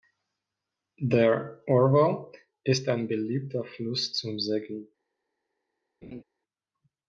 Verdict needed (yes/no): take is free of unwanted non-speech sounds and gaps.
no